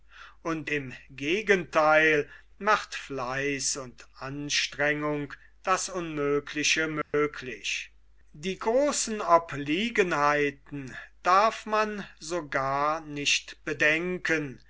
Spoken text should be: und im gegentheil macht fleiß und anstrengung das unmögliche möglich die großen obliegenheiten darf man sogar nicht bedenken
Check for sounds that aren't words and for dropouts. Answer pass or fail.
fail